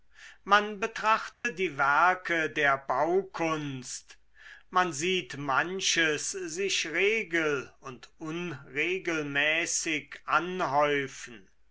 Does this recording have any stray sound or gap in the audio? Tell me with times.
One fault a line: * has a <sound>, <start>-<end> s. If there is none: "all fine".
* has a dropout, 1.3-1.4 s